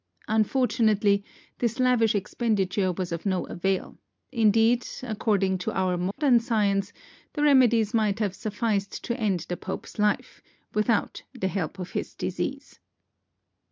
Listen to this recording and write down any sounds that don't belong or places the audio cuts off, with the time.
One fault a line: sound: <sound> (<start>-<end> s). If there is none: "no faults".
sound: dropout (6.1-6.2 s)